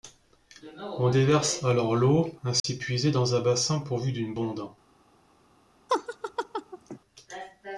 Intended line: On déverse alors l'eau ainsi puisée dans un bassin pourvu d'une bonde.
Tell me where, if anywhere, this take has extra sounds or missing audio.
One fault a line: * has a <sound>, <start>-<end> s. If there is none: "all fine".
* has a dropout, 2.6-2.6 s
* has a laugh, 5.9-7.0 s